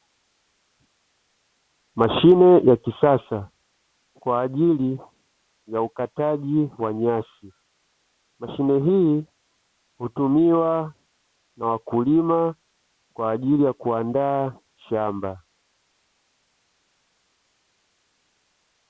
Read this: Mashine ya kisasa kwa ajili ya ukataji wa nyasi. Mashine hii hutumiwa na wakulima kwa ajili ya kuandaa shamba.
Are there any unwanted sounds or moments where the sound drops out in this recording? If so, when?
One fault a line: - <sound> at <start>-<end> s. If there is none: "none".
none